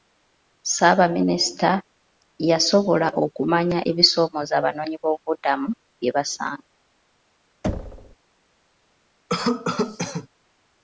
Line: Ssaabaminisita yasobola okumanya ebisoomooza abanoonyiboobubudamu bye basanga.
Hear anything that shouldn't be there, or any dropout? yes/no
yes